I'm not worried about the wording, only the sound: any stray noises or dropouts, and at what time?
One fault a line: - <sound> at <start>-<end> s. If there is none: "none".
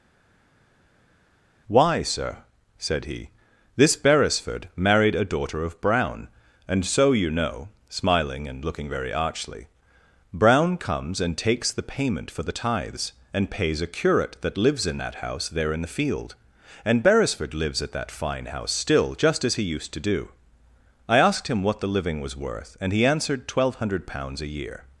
none